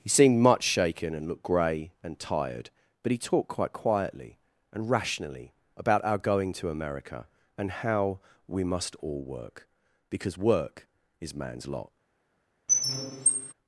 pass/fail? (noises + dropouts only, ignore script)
fail